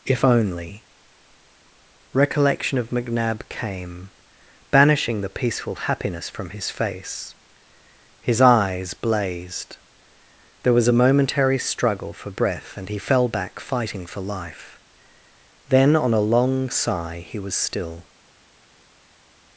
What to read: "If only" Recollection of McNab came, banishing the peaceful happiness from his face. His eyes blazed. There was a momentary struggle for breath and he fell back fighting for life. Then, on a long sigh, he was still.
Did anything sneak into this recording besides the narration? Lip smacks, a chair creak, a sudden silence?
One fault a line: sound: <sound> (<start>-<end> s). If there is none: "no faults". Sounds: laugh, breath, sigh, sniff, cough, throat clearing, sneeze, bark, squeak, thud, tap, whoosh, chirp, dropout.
no faults